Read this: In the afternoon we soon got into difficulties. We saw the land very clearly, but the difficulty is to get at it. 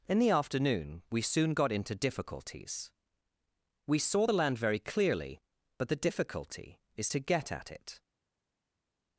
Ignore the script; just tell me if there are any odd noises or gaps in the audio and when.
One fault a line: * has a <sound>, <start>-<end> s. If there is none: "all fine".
all fine